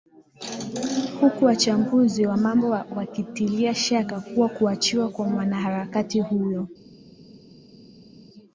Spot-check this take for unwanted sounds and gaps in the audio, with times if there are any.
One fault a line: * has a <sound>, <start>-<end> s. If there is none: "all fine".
all fine